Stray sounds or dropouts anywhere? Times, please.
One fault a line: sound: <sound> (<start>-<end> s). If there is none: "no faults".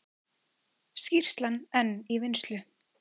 no faults